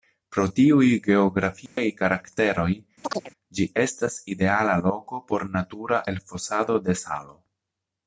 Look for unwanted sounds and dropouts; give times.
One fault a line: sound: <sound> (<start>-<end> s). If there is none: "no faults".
sound: dropout (1.7-1.8 s)
sound: chirp (3.0-3.3 s)